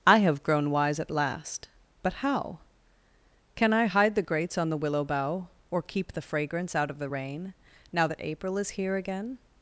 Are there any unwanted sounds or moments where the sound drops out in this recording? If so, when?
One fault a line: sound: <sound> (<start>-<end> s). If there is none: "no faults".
no faults